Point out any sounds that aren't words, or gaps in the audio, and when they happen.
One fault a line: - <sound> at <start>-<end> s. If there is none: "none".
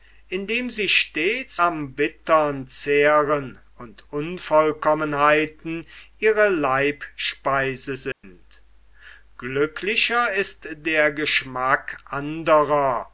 - dropout at 8.1-8.2 s